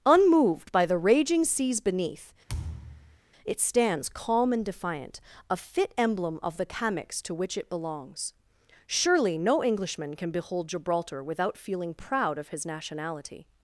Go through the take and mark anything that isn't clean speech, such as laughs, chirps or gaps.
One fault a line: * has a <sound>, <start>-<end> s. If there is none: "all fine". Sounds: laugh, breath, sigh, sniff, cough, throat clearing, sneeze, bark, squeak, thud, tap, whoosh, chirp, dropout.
* has a thud, 2.5-3.2 s